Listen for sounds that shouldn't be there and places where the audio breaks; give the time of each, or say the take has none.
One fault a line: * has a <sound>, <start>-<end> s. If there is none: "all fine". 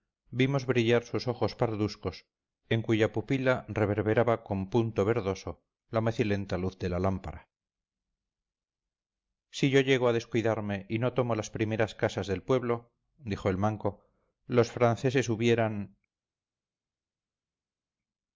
all fine